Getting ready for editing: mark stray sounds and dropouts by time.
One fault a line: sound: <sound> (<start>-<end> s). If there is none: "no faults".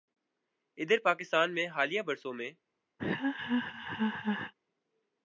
sound: laugh (3.0-4.5 s)